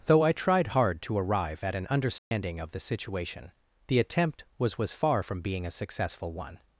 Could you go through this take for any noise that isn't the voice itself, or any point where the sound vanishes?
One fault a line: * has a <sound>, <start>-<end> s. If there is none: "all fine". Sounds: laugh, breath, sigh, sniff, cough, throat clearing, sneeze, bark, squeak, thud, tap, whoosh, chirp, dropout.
* has a dropout, 2.2-2.3 s